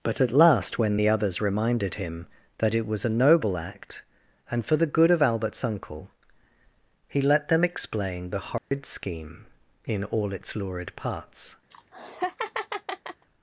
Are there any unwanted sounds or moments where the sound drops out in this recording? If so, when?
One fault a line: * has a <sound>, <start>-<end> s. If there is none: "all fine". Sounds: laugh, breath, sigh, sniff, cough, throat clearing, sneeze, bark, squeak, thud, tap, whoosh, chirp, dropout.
* has a dropout, 8.6-8.7 s
* has a laugh, 11.7-13.3 s